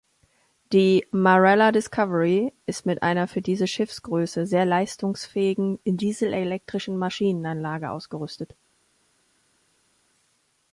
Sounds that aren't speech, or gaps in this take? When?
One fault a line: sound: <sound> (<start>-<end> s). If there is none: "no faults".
no faults